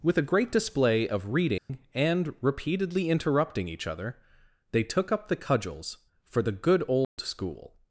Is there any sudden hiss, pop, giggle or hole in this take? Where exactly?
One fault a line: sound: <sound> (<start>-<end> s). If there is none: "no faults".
sound: dropout (1.6-1.7 s)
sound: dropout (7.0-7.2 s)